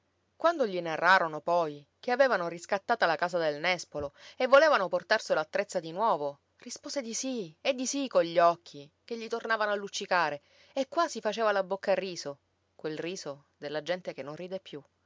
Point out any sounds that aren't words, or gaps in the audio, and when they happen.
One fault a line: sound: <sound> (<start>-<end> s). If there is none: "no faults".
no faults